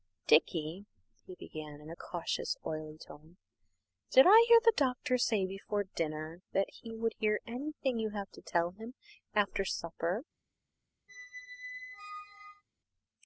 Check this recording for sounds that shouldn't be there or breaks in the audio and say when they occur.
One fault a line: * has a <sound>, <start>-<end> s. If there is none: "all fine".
* has a squeak, 11.1-12.6 s